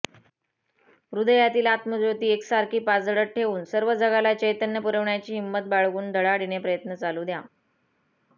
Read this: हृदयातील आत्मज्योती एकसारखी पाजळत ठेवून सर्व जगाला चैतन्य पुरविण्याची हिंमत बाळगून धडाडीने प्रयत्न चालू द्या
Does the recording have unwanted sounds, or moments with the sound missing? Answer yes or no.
no